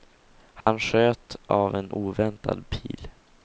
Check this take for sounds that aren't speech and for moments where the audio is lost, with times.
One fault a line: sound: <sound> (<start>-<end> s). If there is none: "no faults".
sound: dropout (0.6-0.7 s)